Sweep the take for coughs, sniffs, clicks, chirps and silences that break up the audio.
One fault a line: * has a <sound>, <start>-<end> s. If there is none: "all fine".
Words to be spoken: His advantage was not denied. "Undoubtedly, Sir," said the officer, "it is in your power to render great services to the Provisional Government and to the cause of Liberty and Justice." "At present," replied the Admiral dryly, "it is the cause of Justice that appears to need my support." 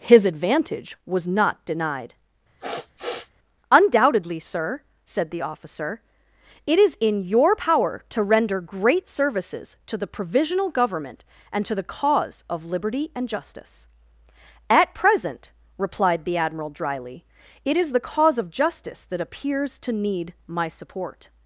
* has a sniff, 2.6-3.3 s